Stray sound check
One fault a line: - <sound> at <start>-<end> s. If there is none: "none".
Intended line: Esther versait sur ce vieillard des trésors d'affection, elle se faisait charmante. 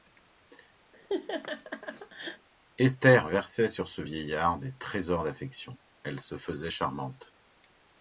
- laugh at 0.9-2.5 s